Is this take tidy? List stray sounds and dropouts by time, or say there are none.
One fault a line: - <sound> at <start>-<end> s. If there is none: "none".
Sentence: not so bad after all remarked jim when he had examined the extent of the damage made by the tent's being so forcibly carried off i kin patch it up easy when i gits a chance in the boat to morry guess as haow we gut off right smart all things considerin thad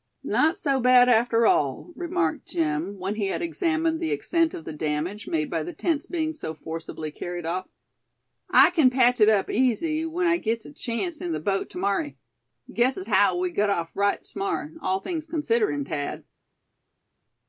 none